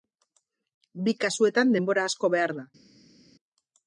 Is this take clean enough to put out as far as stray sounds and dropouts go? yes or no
yes